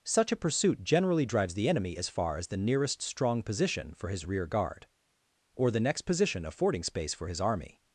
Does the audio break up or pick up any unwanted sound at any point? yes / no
no